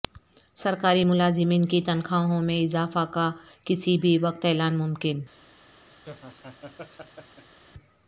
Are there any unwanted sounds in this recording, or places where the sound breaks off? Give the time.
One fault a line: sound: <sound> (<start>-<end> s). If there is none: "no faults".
sound: laugh (6.0-7.6 s)